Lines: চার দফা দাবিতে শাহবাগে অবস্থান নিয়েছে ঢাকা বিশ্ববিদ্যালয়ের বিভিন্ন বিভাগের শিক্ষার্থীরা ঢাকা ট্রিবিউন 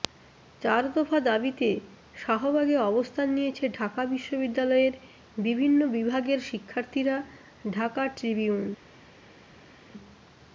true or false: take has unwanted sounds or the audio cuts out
false